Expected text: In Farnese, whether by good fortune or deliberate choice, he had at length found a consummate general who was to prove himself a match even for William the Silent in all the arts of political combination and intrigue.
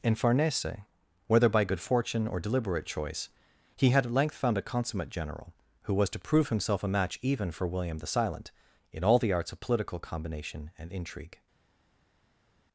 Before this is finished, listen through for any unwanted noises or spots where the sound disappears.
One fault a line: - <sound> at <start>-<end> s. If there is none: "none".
none